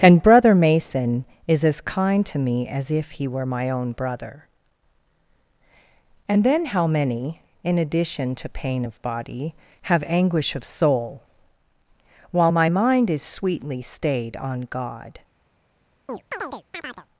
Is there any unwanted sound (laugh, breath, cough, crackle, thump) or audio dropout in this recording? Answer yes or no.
yes